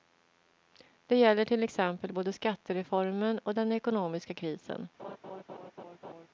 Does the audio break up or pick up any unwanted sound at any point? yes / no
yes